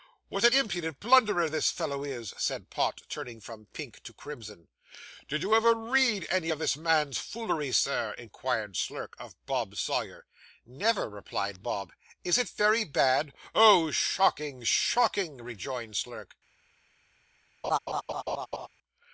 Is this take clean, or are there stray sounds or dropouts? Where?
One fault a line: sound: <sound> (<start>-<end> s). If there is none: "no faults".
sound: laugh (17.6-18.7 s)